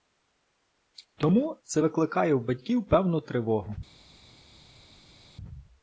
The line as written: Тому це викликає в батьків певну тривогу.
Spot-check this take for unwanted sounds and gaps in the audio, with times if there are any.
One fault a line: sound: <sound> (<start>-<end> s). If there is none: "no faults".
no faults